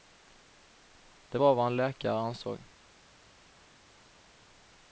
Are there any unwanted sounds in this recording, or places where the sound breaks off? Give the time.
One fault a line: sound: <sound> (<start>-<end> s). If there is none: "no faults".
no faults